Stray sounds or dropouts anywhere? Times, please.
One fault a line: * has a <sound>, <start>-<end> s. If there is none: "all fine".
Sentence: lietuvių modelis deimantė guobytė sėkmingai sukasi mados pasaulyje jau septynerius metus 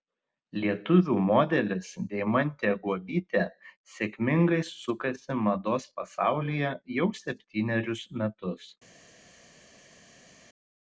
all fine